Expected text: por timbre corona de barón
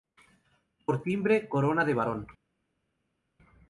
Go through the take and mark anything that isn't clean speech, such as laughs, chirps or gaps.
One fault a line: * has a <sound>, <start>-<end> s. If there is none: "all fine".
all fine